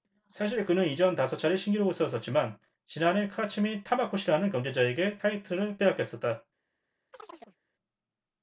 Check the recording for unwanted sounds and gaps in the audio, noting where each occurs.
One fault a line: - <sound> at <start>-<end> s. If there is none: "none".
- chirp at 7.1-7.6 s